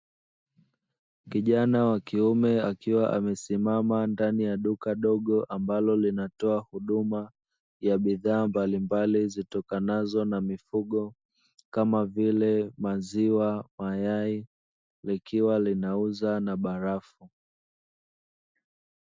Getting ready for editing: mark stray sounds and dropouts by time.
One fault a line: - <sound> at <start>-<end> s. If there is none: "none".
none